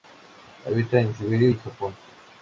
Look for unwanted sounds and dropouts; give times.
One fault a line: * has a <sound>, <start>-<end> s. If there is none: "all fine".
all fine